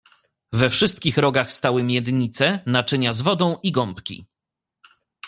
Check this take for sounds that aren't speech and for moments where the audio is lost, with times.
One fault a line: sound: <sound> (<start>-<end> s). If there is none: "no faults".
no faults